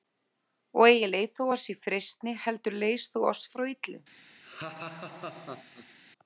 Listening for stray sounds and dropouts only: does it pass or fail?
fail